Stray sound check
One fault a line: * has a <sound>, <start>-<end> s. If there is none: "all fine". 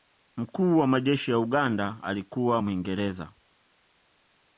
all fine